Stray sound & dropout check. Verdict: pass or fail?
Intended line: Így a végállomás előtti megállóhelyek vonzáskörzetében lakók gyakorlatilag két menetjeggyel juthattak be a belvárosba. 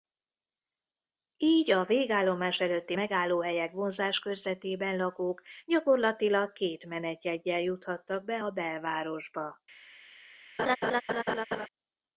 fail